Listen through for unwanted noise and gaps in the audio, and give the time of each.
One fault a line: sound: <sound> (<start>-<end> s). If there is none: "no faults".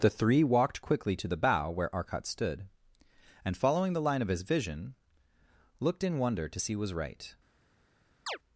sound: chirp (8.3-8.4 s)